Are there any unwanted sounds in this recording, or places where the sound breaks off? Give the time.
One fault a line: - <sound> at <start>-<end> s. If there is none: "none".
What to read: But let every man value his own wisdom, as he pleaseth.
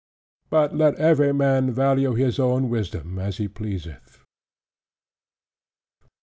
none